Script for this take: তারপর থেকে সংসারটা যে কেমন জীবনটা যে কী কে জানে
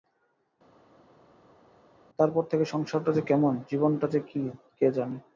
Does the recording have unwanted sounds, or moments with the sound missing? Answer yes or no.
no